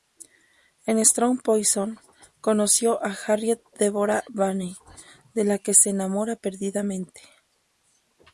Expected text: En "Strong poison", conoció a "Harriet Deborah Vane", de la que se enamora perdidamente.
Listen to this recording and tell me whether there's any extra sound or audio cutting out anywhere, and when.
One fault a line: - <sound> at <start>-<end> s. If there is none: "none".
none